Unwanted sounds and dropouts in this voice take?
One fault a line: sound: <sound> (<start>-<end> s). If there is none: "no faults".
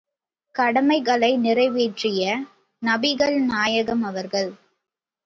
no faults